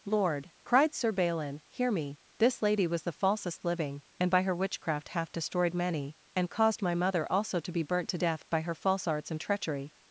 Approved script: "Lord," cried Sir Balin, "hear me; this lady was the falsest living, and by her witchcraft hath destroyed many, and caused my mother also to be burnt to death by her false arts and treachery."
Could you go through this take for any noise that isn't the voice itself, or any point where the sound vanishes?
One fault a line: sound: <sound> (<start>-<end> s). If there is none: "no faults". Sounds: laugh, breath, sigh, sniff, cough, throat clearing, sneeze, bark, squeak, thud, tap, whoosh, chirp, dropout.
no faults